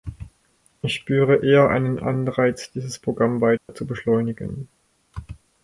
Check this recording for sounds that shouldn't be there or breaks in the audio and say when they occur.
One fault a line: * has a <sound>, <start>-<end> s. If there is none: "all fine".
* has a dropout, 3.6-3.7 s